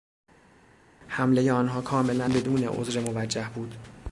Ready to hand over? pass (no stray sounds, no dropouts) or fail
pass